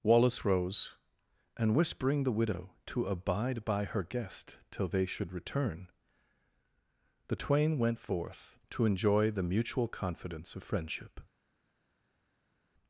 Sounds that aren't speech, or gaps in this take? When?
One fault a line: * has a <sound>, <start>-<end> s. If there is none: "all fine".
all fine